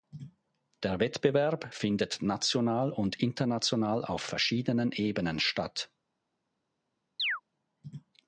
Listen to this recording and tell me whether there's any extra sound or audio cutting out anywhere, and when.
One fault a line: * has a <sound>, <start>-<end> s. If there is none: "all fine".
* has a chirp, 7.2-7.4 s